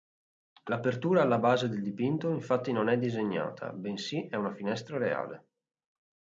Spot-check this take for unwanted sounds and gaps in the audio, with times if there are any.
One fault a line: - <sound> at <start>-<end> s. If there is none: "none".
none